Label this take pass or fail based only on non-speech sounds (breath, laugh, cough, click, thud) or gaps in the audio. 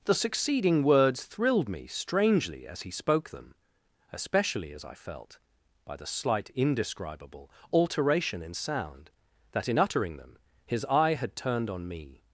pass